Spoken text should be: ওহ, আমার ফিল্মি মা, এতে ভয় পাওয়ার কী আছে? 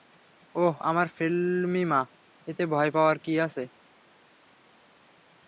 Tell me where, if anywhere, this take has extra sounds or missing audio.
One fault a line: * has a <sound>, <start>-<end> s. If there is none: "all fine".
all fine